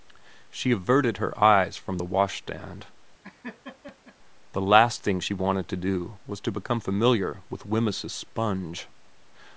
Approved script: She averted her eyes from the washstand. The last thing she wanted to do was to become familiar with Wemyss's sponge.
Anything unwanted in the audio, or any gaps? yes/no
yes